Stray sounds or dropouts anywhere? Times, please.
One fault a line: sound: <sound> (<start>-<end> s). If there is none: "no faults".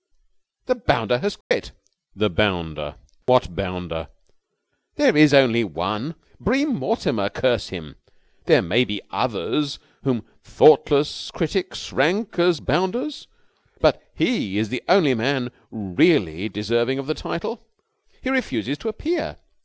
sound: dropout (1.4-1.5 s)
sound: dropout (3.2-3.3 s)